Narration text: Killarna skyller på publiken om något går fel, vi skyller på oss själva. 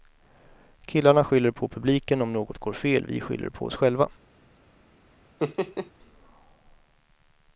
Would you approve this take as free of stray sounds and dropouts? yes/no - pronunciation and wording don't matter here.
no